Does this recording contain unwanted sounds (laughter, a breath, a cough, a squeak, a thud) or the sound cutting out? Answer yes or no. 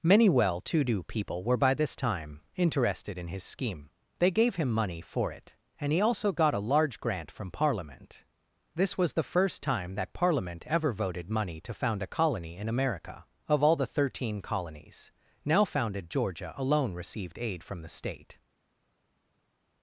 no